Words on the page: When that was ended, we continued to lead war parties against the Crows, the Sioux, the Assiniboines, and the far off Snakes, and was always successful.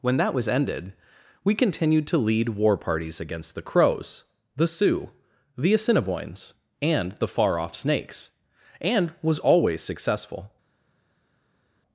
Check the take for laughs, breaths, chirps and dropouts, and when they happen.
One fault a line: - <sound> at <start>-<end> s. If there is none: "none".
none